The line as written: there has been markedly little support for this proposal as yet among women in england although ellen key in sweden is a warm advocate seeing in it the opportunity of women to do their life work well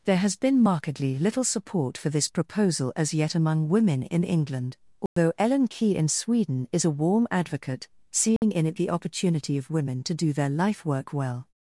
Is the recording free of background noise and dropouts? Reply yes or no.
no